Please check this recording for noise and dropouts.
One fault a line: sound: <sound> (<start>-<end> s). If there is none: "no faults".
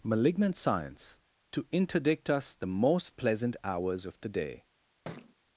sound: thud (5.0-5.3 s)